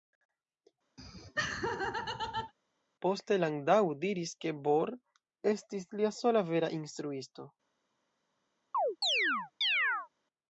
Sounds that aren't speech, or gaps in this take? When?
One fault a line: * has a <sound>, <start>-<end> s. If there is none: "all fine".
* has a laugh, 1.0-2.5 s
* has a chirp, 8.7-10.1 s